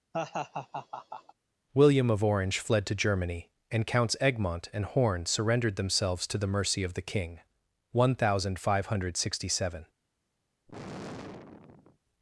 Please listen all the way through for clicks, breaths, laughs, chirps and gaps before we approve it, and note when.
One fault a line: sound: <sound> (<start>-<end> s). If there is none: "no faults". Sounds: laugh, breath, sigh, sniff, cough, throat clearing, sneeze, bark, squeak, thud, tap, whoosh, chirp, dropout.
sound: laugh (0.1-1.3 s)
sound: sigh (10.7-12.0 s)